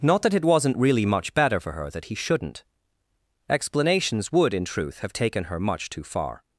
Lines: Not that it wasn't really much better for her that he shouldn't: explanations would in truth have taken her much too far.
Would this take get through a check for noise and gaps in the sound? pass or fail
pass